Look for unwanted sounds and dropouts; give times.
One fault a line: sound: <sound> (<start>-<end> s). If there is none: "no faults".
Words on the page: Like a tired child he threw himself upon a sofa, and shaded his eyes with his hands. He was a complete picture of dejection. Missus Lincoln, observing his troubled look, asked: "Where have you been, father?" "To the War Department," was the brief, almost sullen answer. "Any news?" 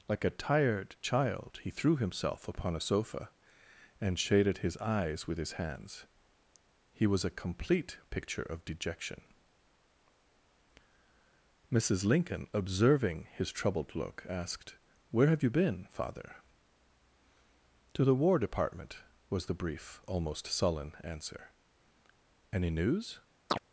sound: chirp (23.5-23.6 s)